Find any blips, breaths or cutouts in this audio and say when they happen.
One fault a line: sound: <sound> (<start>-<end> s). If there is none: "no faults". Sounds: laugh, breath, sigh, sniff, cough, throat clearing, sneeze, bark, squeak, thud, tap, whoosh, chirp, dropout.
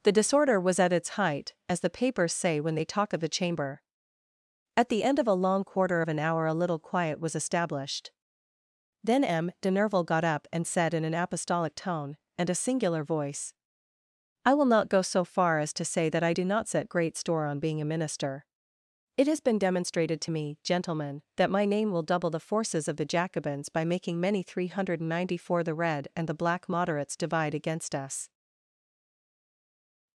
no faults